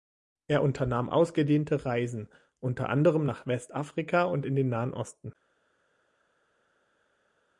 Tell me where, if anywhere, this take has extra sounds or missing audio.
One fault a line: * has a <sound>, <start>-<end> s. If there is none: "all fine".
all fine